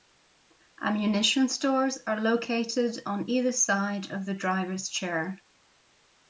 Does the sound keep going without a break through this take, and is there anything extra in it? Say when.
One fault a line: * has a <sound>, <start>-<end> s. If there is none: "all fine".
all fine